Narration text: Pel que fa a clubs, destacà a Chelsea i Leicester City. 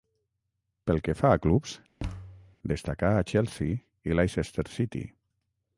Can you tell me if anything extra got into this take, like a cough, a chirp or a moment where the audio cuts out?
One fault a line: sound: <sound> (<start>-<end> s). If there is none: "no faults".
sound: thud (2.0-2.6 s)